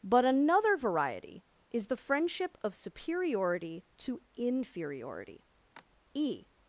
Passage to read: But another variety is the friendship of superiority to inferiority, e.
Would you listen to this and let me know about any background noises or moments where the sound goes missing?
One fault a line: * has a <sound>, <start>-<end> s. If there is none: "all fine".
* has a sigh, 5.7-5.8 s